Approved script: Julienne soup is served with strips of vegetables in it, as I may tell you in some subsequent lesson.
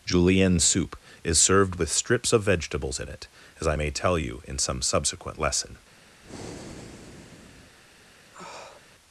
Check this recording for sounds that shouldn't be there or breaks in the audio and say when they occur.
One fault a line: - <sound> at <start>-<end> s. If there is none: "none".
- breath at 6.2-7.8 s
- sniff at 8.3-8.8 s